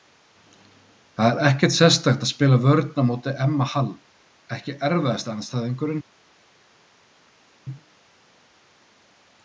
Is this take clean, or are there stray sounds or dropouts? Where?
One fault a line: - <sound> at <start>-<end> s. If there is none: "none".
none